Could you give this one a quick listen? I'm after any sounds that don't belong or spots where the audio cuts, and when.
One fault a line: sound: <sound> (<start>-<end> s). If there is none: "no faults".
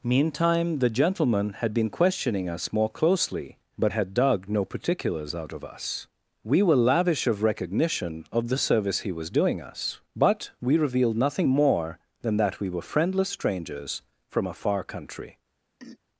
sound: throat clearing (15.8-16.0 s)